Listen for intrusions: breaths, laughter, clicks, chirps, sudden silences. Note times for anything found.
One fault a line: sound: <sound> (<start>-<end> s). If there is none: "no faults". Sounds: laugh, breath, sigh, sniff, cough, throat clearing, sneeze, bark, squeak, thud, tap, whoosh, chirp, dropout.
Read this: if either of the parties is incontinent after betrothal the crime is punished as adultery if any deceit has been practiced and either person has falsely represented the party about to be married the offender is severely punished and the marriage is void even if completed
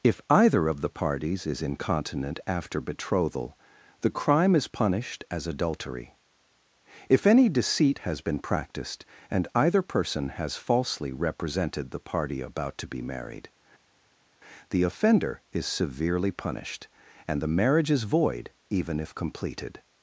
no faults